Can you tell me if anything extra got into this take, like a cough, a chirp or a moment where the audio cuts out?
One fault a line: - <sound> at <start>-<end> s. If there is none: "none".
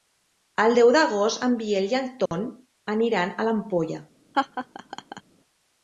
- dropout at 2.3-2.3 s
- laugh at 4.3-5.2 s